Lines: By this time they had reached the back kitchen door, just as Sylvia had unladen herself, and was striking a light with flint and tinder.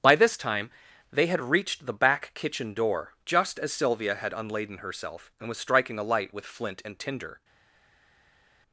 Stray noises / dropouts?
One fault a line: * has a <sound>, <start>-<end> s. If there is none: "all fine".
all fine